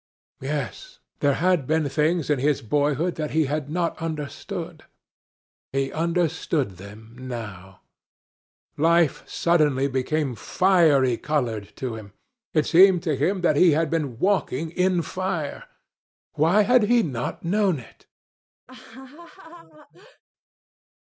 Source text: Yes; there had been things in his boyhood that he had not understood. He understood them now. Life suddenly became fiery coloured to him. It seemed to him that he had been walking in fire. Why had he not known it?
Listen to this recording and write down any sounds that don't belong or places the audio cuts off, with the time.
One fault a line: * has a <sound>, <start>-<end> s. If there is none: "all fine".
* has a laugh, 18.7-20.2 s